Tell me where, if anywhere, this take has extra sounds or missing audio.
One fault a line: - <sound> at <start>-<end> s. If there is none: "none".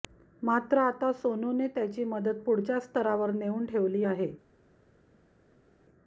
none